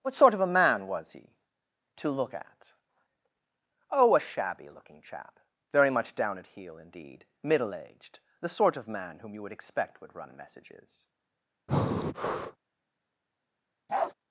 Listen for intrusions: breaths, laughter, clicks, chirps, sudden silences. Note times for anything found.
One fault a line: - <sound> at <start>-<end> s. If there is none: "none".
- breath at 11.7-12.6 s
- bark at 13.9-14.1 s